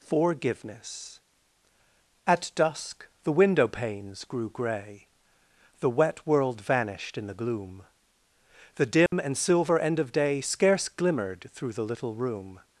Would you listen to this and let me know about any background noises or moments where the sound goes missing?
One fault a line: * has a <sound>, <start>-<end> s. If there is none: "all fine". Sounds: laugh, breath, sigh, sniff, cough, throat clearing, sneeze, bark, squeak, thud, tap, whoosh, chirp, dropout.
* has a dropout, 9.1-9.1 s